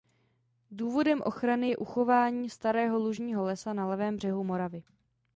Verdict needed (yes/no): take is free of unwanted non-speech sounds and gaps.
yes